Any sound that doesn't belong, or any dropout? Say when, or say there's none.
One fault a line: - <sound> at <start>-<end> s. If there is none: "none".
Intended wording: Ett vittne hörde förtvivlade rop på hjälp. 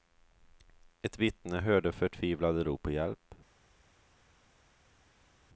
none